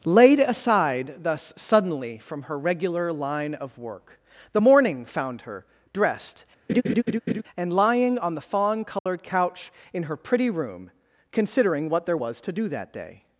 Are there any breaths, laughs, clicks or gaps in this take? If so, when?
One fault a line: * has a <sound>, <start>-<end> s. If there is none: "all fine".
* has a laugh, 6.7-7.4 s
* has a dropout, 9.0-9.1 s